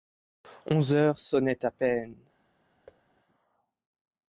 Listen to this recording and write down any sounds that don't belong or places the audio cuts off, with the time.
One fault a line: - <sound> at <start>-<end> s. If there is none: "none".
- thud at 2.9-3.0 s